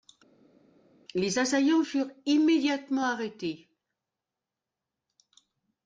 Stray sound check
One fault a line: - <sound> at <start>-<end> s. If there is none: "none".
none